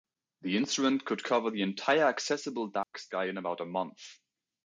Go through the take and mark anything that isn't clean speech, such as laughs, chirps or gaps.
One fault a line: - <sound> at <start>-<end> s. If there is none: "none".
- dropout at 2.8-2.9 s